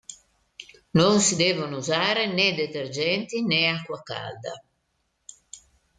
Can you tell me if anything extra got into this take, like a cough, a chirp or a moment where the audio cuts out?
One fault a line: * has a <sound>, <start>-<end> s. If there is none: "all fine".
all fine